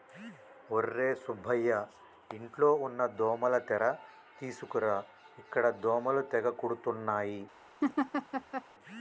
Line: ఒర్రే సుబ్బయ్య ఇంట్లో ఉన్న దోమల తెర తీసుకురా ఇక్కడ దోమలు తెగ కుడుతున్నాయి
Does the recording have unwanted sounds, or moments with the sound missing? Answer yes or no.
yes